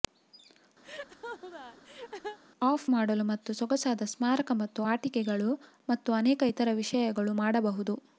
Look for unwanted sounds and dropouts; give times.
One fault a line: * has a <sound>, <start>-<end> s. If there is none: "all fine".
* has a laugh, 0.8-2.4 s